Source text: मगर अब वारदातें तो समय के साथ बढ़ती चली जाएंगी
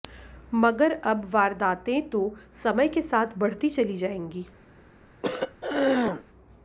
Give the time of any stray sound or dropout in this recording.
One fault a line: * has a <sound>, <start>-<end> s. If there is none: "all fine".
* has a throat clearing, 5.2-6.2 s